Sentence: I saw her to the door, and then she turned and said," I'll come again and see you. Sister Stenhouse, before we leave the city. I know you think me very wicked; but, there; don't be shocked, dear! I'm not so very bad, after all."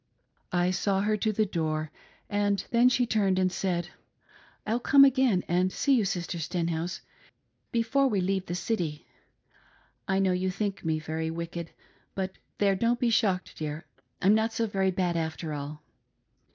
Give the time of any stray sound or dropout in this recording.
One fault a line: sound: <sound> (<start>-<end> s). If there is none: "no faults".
no faults